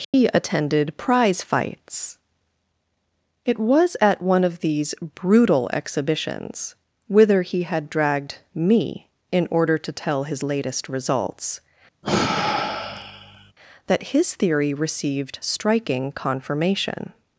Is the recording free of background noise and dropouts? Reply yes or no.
no